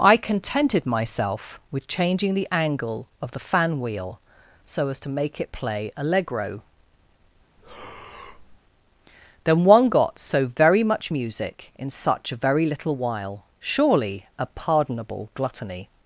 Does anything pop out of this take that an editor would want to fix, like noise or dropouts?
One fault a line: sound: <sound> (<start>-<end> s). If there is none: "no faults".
sound: breath (7.6-8.6 s)